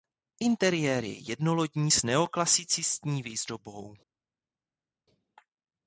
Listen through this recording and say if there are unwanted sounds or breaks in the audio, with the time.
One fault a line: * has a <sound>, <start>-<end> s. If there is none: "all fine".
all fine